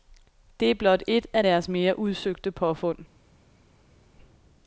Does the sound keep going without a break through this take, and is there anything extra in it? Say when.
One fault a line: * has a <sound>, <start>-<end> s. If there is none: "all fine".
all fine